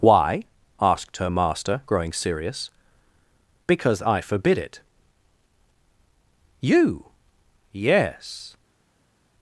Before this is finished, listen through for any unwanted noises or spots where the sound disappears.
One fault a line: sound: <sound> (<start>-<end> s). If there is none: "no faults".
no faults